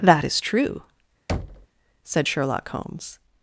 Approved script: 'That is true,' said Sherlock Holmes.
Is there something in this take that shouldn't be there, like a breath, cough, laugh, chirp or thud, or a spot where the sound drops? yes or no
yes